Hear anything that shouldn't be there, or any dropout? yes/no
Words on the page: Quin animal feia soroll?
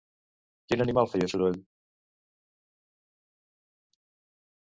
no